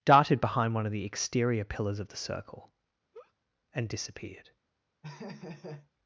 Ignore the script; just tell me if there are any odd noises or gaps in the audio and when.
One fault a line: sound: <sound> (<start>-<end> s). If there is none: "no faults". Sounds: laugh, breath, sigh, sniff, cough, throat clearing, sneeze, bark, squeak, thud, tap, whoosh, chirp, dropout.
sound: laugh (3.1-3.3 s)
sound: laugh (5.0-5.9 s)